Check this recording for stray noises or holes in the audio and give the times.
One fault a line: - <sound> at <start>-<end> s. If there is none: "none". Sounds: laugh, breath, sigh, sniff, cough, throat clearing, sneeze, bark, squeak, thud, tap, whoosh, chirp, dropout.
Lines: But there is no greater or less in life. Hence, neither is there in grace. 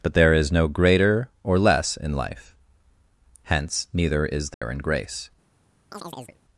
- dropout at 4.5-4.6 s
- chirp at 5.9-6.4 s